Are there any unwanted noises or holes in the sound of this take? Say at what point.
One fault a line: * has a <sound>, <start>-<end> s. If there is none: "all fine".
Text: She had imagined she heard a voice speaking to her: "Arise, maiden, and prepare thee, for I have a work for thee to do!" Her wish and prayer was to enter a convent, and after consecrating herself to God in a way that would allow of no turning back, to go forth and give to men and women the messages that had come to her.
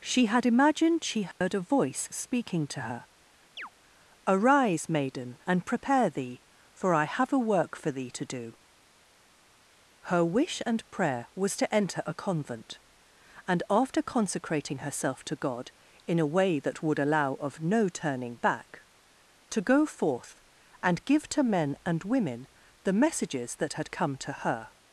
* has a dropout, 1.3-1.4 s
* has a chirp, 3.6-3.7 s